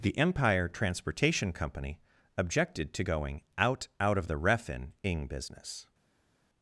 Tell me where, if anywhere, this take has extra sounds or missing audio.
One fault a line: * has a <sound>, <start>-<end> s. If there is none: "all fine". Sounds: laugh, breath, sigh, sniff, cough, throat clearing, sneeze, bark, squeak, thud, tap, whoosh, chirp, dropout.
all fine